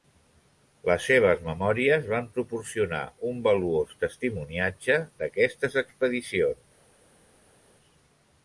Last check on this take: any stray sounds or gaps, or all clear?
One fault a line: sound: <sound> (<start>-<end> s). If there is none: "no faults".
no faults